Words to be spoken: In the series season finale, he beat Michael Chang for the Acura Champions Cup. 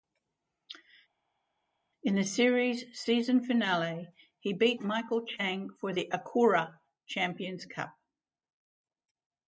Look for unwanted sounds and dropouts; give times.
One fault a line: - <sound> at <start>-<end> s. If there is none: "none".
none